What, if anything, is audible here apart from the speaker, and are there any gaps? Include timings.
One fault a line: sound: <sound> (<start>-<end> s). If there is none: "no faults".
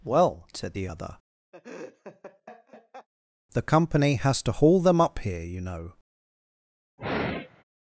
sound: laugh (1.5-3.1 s)
sound: sigh (7.0-7.6 s)